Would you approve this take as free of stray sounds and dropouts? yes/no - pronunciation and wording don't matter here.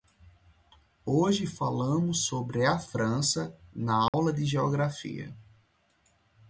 no